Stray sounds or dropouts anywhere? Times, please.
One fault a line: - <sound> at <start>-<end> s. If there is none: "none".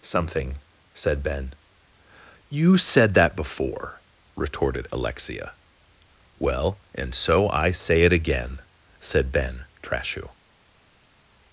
none